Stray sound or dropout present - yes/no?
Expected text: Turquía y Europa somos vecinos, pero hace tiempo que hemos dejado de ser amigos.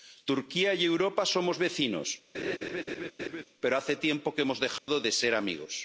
yes